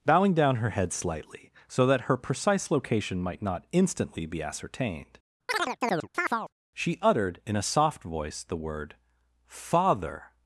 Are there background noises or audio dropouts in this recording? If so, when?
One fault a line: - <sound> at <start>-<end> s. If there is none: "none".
- chirp at 5.5-6.5 s